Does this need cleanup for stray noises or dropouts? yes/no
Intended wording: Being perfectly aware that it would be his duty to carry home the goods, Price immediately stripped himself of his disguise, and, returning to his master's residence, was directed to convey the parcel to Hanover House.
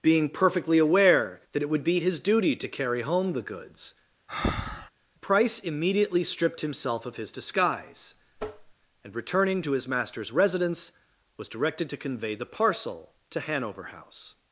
yes